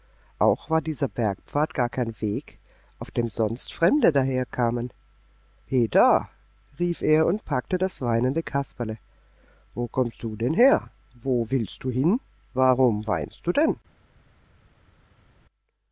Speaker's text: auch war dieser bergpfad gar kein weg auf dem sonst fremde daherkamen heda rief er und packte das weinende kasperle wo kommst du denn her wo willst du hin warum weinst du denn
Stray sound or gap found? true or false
false